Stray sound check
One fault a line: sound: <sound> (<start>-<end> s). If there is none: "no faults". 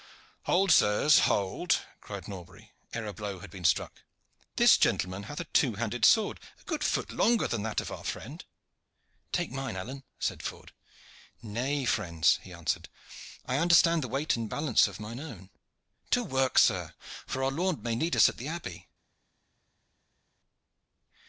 no faults